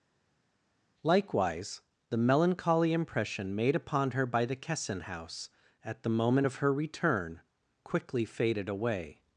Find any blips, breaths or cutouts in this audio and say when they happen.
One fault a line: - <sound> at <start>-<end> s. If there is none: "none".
none